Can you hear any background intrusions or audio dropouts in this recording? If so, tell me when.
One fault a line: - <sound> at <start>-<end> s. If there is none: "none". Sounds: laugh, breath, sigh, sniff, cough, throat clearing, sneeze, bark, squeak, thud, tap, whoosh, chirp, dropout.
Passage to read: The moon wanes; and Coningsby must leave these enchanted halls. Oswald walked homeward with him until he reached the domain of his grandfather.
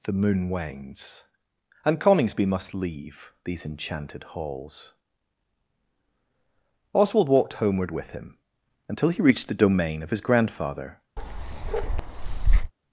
- bark at 11.2-12.7 s